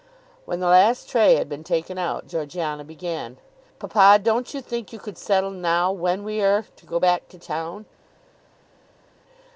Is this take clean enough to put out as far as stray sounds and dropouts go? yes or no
yes